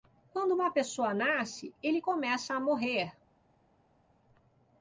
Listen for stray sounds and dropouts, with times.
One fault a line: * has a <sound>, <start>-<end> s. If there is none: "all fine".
all fine